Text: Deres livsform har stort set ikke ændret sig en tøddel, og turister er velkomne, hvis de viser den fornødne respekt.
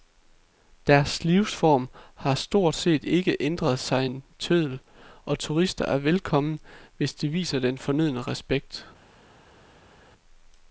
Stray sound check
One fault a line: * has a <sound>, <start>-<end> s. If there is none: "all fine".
all fine